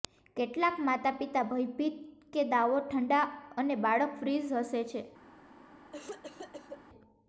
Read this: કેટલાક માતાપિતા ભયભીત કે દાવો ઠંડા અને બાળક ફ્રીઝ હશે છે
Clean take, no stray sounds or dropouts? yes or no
no